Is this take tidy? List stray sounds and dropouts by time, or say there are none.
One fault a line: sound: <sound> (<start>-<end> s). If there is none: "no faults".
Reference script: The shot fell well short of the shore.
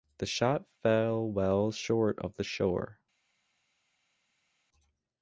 no faults